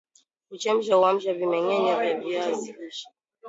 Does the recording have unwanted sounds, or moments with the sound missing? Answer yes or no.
no